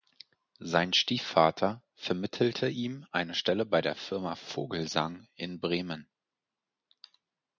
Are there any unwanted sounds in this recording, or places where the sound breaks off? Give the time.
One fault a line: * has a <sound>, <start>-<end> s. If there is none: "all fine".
all fine